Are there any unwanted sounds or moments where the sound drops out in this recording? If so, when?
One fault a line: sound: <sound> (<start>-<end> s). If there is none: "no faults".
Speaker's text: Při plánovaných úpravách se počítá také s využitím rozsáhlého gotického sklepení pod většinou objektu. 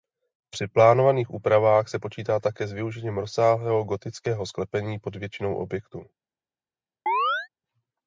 sound: chirp (7.1-7.5 s)